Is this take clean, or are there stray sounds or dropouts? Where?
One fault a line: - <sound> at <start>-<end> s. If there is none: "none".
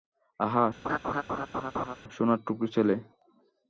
- laugh at 0.8-2.0 s